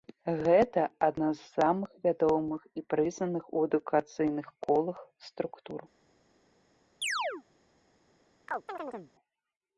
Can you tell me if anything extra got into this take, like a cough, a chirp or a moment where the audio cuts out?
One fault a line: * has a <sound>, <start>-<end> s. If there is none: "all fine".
* has a chirp, 7.0-7.4 s
* has a chirp, 8.5-9.1 s